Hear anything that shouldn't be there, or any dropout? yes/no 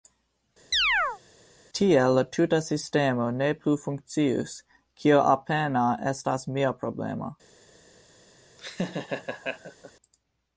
yes